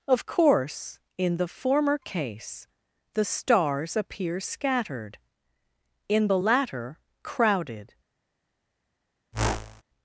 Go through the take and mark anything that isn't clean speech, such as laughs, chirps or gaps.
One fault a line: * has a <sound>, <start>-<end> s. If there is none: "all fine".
* has a whoosh, 9.3-9.8 s